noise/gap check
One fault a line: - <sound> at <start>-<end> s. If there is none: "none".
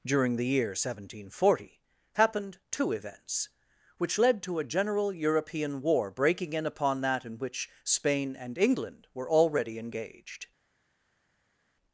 none